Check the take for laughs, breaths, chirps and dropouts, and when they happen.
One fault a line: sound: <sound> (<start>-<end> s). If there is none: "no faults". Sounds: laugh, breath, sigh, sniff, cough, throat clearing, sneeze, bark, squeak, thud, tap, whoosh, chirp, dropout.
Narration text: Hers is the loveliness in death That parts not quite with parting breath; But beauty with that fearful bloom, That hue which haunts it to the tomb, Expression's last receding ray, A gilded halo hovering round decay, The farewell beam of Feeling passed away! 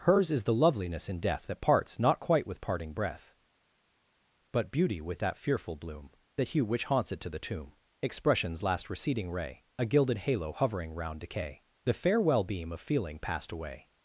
no faults